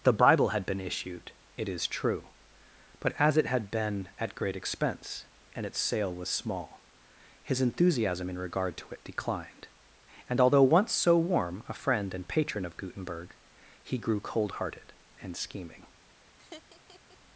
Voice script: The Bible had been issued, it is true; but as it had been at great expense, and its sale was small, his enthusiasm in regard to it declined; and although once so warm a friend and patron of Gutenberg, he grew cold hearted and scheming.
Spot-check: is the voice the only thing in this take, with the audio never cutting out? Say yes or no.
no